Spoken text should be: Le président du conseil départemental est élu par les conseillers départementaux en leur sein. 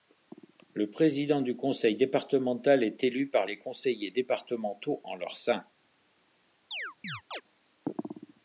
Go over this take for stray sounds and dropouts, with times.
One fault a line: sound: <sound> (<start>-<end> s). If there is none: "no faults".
sound: chirp (6.7-7.4 s)